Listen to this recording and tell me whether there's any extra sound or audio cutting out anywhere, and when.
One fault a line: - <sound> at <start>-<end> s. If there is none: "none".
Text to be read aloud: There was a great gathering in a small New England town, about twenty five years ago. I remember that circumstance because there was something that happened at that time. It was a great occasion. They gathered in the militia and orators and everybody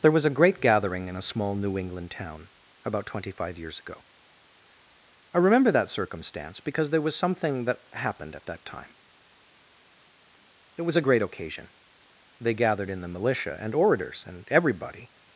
none